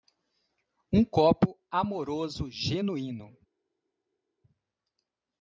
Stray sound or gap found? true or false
false